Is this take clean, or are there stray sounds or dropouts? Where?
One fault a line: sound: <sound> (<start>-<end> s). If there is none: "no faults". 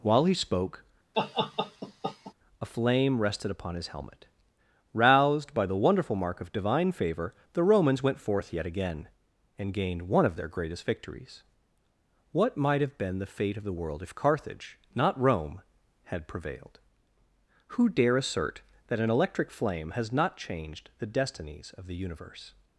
sound: laugh (1.1-2.3 s)